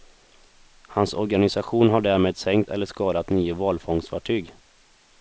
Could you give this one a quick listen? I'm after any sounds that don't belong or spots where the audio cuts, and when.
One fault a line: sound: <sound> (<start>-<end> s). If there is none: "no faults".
no faults